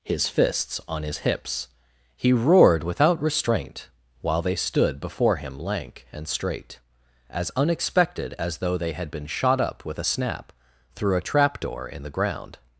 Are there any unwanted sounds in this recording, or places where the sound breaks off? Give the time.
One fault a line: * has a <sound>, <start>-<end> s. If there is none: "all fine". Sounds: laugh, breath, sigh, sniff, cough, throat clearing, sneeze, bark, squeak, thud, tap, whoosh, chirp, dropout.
all fine